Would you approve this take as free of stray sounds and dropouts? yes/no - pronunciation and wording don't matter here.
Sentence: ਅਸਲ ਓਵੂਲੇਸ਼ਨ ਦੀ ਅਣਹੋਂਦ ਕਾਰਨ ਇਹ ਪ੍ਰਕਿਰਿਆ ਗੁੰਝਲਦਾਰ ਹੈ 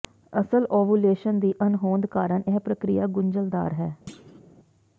no